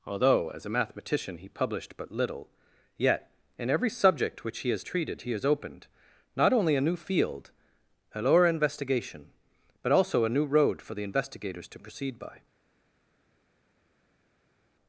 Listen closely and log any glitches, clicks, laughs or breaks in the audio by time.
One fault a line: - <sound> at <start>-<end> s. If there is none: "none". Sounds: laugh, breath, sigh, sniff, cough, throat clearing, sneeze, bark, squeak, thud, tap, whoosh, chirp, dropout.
none